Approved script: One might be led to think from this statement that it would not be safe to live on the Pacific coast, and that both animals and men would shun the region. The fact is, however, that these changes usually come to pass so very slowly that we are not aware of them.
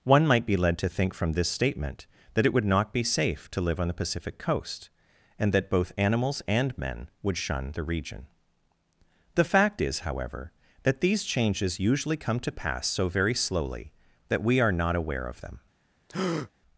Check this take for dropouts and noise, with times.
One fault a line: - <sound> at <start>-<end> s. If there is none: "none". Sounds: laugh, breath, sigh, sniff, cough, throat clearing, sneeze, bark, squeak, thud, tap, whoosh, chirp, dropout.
- breath at 16.1-16.5 s